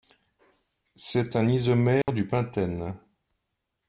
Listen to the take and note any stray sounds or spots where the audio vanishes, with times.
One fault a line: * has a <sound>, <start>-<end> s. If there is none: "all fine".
* has a dropout, 2.0-2.1 s